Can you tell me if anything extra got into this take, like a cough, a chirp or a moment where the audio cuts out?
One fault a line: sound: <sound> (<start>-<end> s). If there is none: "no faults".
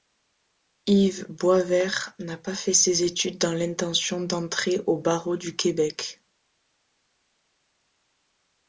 no faults